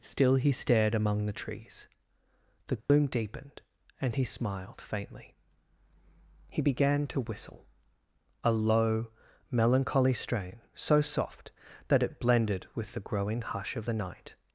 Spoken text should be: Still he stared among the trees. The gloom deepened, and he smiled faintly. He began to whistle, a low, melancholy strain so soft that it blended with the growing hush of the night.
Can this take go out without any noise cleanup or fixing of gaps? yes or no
no